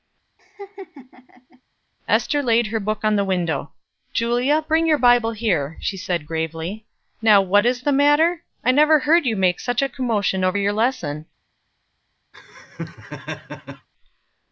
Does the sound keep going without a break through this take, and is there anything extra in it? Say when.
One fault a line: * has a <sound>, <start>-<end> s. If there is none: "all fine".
* has a laugh, 0.4-1.6 s
* has a laugh, 12.3-13.9 s